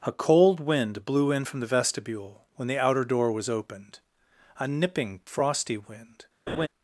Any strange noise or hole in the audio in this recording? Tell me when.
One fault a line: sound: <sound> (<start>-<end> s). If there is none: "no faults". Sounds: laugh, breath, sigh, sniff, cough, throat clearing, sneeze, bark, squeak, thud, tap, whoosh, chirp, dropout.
sound: laugh (6.5-6.7 s)